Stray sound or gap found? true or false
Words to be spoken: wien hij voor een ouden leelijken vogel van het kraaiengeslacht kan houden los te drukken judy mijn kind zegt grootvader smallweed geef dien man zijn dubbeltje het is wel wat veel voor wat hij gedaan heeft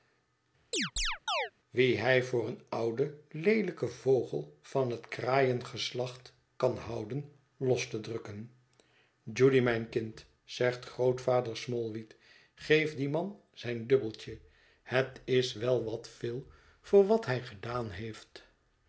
true